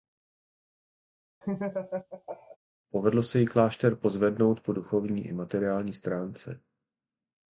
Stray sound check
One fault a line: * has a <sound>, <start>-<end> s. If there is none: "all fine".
* has a laugh, 1.4-2.6 s